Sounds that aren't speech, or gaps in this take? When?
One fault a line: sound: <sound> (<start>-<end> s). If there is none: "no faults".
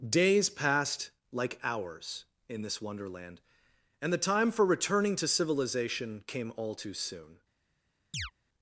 sound: chirp (8.1-8.3 s)